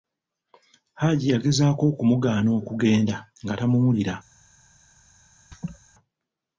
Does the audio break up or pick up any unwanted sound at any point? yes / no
yes